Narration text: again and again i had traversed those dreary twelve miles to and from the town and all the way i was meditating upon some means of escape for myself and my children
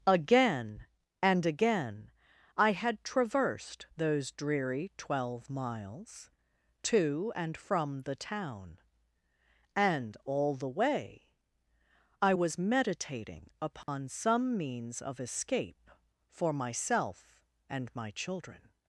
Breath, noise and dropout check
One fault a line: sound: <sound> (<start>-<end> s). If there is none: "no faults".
sound: dropout (13.8-13.9 s)